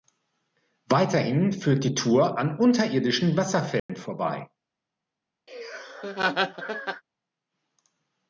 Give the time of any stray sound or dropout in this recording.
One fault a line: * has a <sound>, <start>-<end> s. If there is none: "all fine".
* has a dropout, 3.8-3.9 s
* has a laugh, 5.5-7.0 s